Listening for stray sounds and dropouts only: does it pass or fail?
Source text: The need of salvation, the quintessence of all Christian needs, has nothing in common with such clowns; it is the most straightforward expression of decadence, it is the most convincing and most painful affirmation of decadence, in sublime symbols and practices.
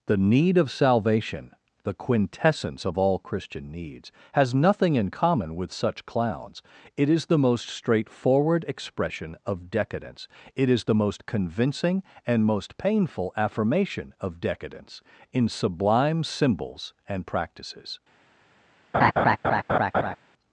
fail